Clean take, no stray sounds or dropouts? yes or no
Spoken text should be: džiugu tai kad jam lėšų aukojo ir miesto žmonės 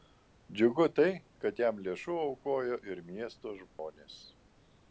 no